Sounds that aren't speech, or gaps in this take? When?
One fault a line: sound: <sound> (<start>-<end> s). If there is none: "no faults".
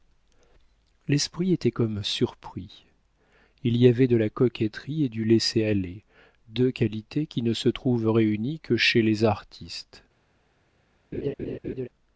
sound: laugh (11.1-11.9 s)